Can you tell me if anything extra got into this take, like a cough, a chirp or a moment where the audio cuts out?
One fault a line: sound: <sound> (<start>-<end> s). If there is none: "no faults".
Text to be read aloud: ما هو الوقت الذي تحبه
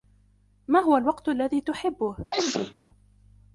sound: sneeze (2.3-2.7 s)